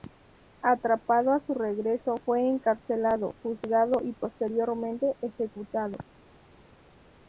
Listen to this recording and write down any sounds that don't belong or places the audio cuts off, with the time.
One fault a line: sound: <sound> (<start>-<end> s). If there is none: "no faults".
no faults